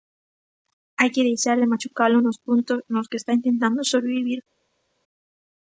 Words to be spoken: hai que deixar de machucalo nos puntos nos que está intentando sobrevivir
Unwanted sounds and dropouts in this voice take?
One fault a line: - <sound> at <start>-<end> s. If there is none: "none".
none